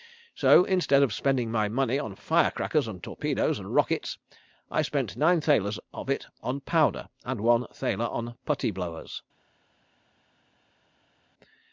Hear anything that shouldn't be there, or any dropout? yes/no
no